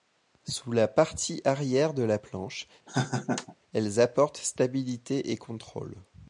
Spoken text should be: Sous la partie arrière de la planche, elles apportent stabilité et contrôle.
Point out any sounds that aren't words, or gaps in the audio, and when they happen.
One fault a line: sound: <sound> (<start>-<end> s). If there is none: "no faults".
sound: laugh (2.9-3.6 s)